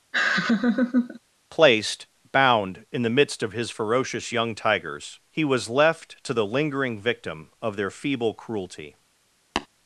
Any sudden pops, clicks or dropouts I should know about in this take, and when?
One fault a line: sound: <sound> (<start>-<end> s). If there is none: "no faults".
sound: laugh (0.1-1.2 s)
sound: tap (9.6-9.7 s)